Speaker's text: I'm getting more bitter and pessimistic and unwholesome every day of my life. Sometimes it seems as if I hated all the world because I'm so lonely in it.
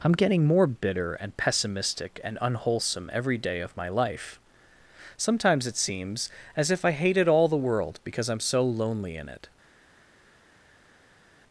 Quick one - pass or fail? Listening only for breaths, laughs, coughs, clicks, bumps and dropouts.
pass